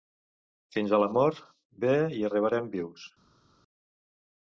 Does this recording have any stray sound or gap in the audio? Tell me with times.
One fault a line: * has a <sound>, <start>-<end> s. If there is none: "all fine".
all fine